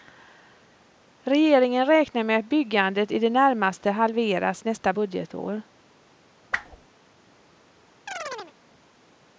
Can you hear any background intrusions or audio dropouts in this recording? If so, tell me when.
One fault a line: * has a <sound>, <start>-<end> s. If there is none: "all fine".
* has a whoosh, 6.5-6.9 s
* has a chirp, 8.1-8.5 s